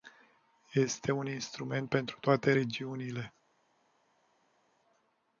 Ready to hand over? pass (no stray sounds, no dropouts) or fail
pass